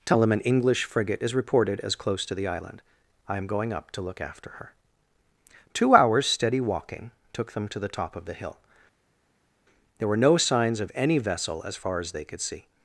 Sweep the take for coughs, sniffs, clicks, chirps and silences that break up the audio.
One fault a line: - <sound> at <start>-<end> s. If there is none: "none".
none